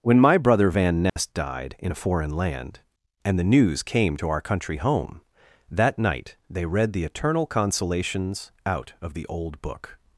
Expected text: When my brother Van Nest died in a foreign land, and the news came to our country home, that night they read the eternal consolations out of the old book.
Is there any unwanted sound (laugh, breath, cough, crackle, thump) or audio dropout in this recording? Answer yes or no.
yes